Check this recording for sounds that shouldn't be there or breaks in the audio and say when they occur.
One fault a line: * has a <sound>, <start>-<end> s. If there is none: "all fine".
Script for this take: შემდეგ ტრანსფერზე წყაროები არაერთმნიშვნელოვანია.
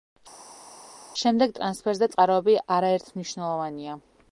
all fine